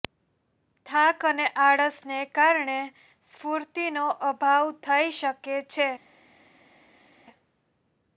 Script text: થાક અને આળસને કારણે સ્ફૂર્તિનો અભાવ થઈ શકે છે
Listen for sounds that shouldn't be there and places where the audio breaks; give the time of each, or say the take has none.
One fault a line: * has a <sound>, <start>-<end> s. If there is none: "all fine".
all fine